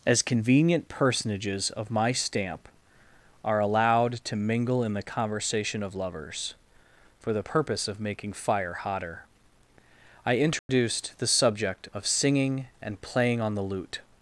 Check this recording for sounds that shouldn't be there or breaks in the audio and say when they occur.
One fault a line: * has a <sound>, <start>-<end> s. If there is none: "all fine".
* has a dropout, 10.6-10.7 s